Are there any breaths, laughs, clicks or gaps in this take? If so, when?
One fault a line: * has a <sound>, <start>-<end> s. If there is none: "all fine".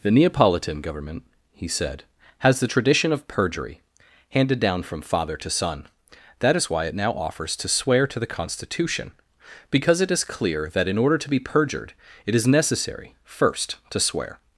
all fine